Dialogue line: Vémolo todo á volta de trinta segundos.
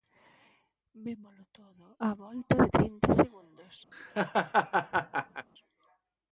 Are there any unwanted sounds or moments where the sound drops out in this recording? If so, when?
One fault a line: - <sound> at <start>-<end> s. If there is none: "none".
- laugh at 3.9-5.5 s